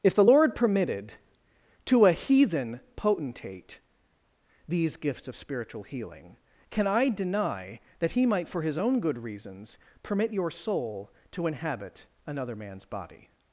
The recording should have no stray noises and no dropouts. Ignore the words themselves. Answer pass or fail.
pass